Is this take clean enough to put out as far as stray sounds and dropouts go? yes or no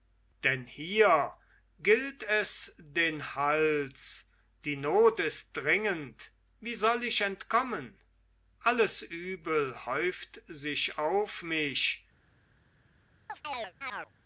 no